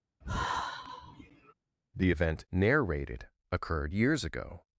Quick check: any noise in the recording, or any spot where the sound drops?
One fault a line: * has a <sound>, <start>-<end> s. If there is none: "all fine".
* has a sigh, 0.2-1.5 s